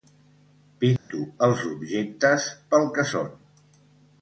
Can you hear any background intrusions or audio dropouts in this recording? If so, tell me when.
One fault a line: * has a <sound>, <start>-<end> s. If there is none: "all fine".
* has a dropout, 1.0-1.1 s